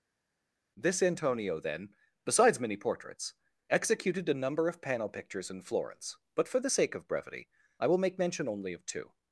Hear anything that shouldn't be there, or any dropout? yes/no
no